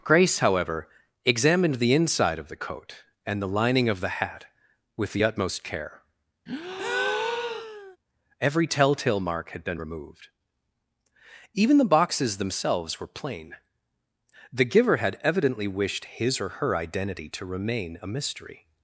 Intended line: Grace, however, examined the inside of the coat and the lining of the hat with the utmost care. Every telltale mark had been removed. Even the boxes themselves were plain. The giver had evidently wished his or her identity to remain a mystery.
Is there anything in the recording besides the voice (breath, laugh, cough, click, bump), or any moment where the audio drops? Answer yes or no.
yes